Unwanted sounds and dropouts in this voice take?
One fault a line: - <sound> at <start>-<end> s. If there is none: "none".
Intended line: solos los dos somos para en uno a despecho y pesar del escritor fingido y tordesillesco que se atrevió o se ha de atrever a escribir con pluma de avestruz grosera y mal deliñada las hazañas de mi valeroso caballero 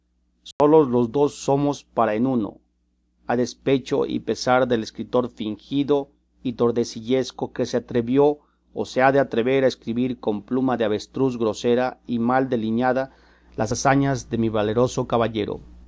- dropout at 0.5-0.6 s